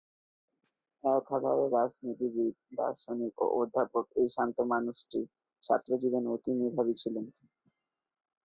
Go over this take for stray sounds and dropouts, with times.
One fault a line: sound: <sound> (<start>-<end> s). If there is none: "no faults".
no faults